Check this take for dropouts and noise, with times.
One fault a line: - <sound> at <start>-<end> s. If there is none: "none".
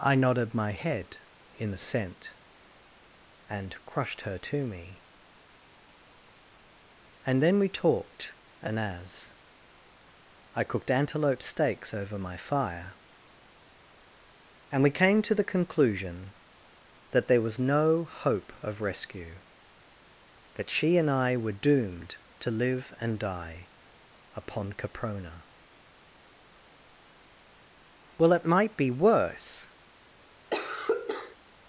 - cough at 30.5-31.4 s